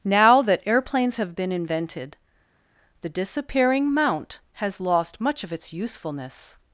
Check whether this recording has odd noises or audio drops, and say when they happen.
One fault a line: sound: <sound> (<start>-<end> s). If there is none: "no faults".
no faults